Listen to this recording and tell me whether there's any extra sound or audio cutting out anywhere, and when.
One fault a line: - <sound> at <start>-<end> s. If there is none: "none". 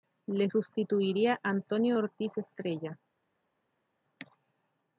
none